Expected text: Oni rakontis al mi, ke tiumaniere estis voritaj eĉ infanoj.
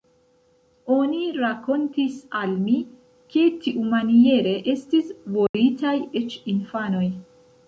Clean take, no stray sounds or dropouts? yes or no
no